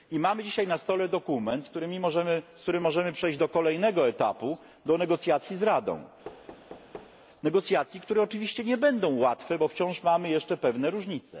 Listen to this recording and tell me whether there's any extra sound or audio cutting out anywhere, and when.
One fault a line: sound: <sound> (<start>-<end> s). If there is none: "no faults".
sound: thud (6.2-7.2 s)